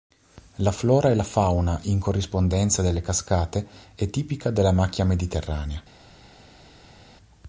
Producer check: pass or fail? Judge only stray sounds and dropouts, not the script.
pass